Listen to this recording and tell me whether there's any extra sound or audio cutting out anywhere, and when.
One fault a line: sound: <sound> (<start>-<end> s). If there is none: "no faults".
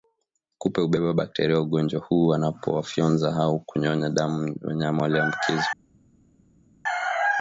no faults